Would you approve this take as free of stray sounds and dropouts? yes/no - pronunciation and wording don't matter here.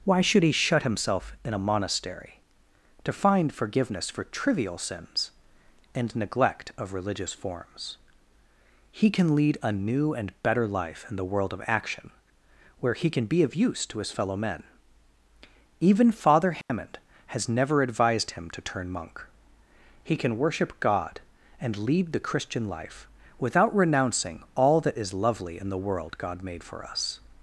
no